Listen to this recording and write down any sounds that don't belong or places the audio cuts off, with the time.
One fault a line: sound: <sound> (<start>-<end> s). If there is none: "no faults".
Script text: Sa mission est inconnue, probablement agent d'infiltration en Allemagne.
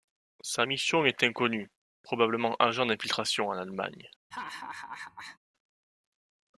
sound: laugh (4.3-5.4 s)